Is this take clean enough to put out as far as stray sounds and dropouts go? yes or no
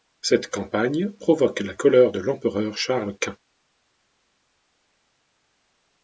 yes